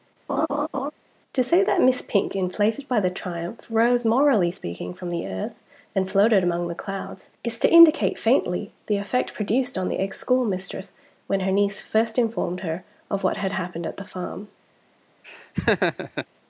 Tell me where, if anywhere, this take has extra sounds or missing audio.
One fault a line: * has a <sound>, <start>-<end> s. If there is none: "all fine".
* has a laugh, 0.3-0.9 s
* has a laugh, 15.2-16.3 s